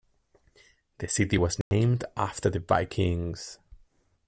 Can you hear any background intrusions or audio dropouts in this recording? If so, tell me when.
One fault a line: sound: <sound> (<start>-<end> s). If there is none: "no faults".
sound: dropout (1.6-1.7 s)